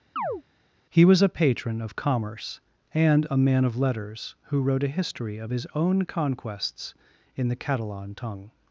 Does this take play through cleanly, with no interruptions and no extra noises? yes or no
no